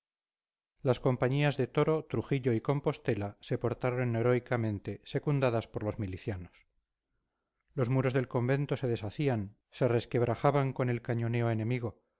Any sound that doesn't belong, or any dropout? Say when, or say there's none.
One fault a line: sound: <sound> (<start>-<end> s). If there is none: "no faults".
no faults